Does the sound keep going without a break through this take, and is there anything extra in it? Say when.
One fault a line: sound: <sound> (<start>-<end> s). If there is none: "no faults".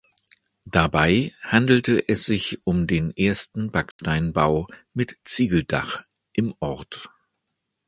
sound: dropout (3.9-4.0 s)